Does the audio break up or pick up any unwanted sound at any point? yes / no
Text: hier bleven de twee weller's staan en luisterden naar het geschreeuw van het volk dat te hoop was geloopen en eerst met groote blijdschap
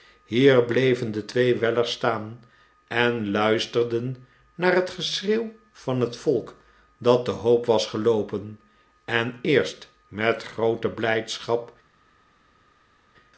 no